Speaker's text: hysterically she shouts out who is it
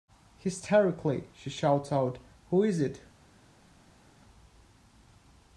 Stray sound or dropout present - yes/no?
no